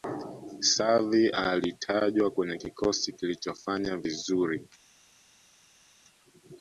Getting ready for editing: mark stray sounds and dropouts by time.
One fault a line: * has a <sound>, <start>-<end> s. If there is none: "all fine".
all fine